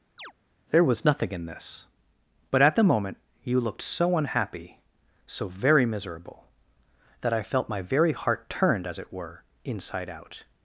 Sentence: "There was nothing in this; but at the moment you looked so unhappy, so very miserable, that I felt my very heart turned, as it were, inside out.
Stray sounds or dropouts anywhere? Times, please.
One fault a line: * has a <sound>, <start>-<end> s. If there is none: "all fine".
* has a chirp, 0.2-0.3 s